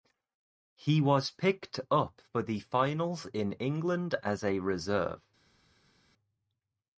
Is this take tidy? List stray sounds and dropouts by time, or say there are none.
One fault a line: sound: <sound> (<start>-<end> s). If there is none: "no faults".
no faults